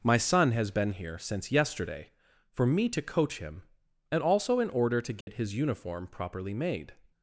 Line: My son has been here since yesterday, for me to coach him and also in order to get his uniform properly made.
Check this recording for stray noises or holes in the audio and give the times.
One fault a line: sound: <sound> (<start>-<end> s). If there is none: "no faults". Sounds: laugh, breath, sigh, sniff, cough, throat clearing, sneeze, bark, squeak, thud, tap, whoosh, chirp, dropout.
sound: dropout (5.2-5.3 s)